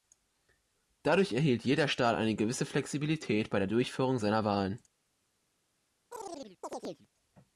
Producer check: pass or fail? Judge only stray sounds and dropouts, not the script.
fail